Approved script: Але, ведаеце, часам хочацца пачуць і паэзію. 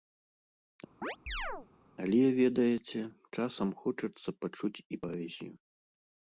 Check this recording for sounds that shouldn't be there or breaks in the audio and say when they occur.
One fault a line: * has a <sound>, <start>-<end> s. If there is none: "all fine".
* has a chirp, 1.0-1.7 s